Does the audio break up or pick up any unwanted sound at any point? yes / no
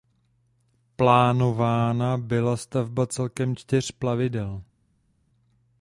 no